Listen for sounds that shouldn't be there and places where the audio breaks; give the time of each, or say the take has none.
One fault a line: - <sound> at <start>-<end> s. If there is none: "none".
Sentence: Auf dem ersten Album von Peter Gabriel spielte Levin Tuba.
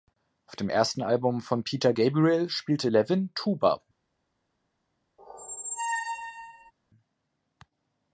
- squeak at 5.2-6.7 s